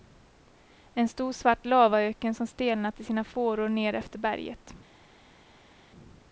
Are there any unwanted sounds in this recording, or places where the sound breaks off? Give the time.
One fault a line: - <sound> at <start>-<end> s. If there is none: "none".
none